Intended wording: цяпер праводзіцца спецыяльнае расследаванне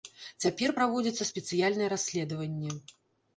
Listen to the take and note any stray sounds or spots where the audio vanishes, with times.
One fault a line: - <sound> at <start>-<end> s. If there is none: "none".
none